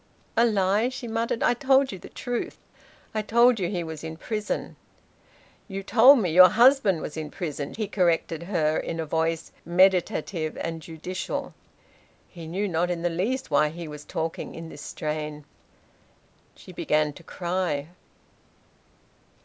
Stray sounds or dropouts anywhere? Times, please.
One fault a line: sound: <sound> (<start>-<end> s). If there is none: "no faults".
no faults